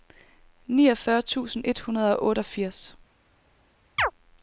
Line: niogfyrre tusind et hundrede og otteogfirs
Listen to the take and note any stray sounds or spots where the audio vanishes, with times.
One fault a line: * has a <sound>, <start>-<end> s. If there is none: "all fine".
* has a chirp, 4.0-4.1 s